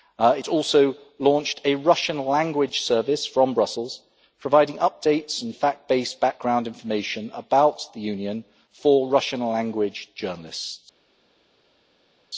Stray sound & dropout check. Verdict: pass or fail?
pass